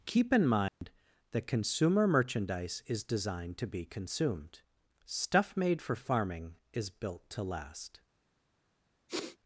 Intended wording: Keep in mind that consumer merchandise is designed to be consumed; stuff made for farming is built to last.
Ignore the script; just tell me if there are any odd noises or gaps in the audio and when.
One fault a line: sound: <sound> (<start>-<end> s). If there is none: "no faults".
sound: dropout (0.7-0.8 s)
sound: sniff (9.1-9.4 s)